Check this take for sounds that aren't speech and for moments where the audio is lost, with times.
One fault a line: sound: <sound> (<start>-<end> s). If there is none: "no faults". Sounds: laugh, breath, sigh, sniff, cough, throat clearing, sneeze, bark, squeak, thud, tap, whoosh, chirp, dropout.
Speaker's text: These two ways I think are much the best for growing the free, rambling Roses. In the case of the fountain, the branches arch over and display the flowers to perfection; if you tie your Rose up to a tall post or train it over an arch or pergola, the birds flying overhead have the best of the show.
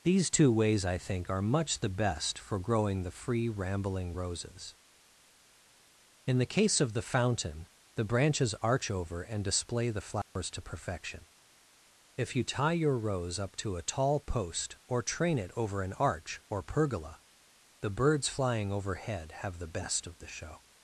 sound: dropout (10.2-10.4 s)